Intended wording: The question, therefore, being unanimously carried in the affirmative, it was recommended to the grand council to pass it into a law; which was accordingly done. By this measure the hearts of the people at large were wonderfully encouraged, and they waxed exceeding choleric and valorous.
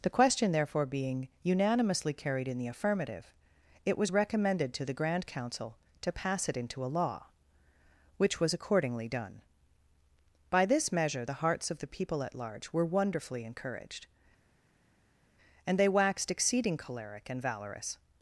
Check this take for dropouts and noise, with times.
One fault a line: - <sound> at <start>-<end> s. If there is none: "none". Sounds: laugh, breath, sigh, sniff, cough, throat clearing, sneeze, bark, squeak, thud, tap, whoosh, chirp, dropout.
none